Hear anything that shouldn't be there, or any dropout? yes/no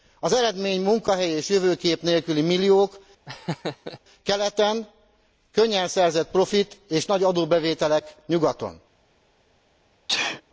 yes